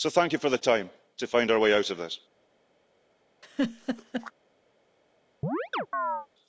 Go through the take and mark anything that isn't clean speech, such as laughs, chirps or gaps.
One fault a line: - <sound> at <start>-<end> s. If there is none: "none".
- laugh at 3.4-4.3 s
- chirp at 5.4-6.3 s